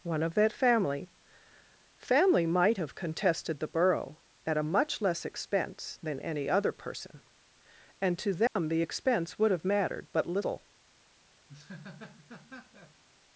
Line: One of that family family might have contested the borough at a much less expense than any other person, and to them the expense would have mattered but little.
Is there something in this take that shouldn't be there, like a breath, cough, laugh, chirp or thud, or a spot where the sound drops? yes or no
yes